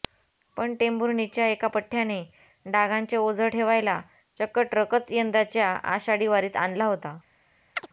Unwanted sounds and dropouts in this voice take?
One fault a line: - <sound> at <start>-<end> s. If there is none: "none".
- chirp at 7.8-7.9 s